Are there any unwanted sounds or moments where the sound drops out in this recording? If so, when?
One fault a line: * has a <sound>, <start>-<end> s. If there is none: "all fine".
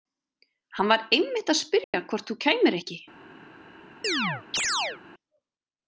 * has a dropout, 1.8-1.9 s
* has a chirp, 4.0-5.0 s